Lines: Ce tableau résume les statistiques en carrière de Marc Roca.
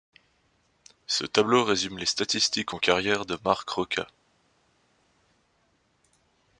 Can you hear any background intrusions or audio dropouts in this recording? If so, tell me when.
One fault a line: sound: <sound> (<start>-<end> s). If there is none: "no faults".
no faults